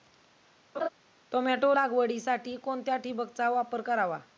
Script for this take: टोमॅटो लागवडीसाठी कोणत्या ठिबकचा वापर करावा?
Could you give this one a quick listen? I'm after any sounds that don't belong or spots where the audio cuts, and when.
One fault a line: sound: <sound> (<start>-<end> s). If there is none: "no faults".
sound: laugh (0.7-0.9 s)